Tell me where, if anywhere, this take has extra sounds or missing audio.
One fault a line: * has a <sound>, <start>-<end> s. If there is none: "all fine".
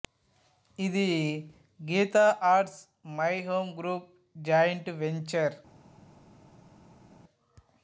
all fine